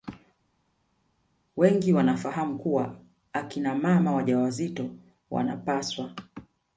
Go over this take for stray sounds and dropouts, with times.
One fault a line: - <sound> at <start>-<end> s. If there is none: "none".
none